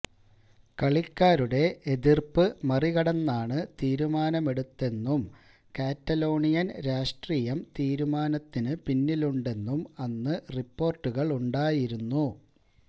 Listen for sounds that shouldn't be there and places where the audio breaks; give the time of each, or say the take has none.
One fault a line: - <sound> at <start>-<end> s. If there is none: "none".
none